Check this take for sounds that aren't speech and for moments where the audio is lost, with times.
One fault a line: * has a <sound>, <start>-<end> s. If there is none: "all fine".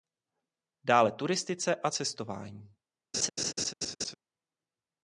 * has a laugh, 3.1-4.1 s